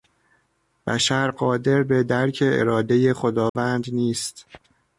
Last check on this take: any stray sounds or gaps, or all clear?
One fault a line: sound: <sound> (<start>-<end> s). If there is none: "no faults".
sound: dropout (3.5-3.6 s)